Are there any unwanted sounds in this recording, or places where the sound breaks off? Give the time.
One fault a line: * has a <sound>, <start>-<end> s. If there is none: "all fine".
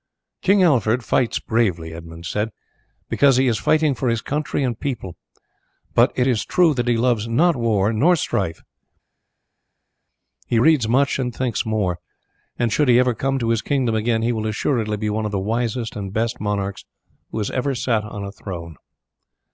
all fine